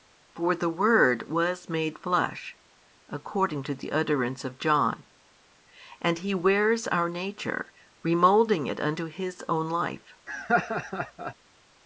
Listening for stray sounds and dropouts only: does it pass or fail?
fail